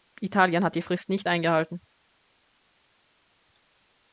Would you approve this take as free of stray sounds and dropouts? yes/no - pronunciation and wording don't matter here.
yes